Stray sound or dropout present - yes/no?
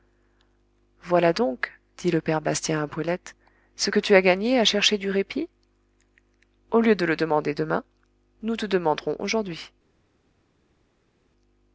no